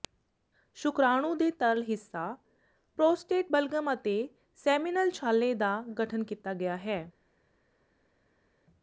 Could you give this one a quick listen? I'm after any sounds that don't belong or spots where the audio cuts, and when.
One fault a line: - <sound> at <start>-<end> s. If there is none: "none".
none